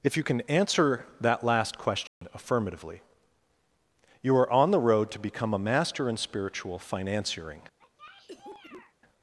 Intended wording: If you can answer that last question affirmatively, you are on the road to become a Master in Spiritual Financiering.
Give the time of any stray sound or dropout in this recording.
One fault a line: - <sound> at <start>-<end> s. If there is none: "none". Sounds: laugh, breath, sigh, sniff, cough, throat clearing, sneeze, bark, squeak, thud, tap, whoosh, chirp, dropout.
- dropout at 2.1-2.2 s
- cough at 7.8-8.9 s